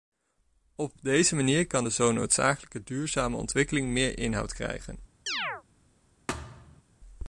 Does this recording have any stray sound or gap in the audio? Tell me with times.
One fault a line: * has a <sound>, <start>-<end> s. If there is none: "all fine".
* has a chirp, 5.3-5.6 s
* has a thud, 6.3-6.8 s